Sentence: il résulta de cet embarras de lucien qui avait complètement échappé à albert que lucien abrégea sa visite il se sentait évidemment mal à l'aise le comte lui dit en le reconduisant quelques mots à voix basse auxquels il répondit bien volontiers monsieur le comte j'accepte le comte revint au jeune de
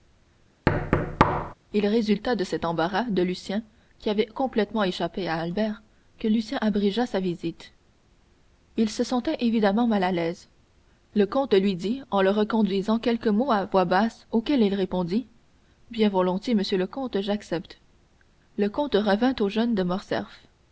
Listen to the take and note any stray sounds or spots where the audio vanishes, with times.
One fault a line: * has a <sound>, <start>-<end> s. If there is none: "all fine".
* has a thud, 0.7-1.5 s